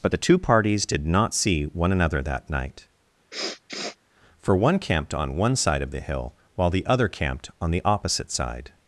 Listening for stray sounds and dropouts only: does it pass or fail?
fail